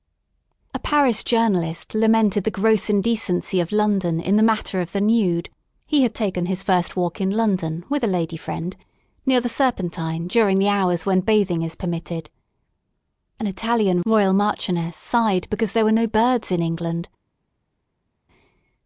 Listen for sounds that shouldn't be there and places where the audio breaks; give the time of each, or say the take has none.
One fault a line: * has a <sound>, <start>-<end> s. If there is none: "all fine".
all fine